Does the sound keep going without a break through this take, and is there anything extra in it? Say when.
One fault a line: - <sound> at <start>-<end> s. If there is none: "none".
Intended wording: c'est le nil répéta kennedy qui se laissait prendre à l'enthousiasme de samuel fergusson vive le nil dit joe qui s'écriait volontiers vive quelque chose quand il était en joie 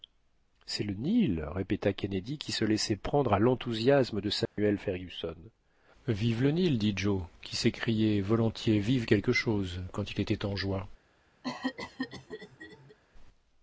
- dropout at 4.5-4.6 s
- cough at 11.4-13.0 s